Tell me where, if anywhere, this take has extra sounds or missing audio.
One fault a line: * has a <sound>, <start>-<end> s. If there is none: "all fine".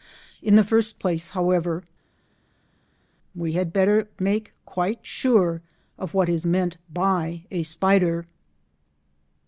all fine